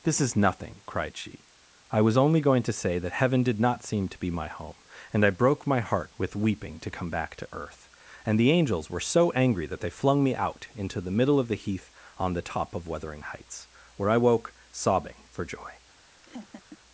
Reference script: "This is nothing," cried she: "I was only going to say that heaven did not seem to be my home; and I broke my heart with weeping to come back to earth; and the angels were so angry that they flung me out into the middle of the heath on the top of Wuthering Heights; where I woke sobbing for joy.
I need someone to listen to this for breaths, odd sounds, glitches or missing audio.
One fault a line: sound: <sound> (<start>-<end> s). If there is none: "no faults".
sound: laugh (16.2-16.8 s)